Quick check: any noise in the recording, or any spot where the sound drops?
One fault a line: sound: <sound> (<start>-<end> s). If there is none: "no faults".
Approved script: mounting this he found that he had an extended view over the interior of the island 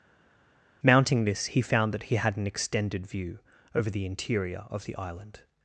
no faults